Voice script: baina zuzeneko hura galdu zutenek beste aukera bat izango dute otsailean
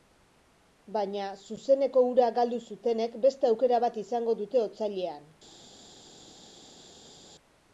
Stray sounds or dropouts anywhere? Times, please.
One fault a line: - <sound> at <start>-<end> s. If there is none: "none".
none